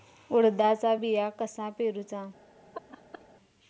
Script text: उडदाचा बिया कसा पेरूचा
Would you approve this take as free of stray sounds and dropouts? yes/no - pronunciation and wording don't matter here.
no